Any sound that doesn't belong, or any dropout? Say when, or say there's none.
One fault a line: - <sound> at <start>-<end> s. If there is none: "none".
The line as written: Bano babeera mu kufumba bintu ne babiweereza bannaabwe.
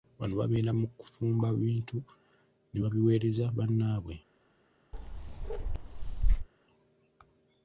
- bark at 4.9-6.5 s